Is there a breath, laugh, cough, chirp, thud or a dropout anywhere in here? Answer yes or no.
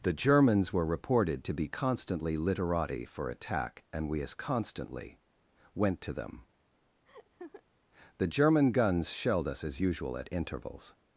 yes